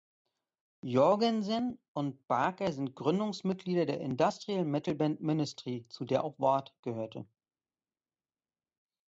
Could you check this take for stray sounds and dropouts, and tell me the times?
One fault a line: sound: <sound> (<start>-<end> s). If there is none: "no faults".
no faults